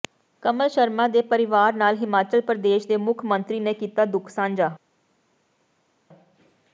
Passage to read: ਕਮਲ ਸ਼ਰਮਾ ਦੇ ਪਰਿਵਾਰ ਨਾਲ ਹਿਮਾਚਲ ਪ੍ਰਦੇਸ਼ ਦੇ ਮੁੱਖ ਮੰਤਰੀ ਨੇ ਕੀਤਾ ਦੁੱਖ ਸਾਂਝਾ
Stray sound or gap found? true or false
false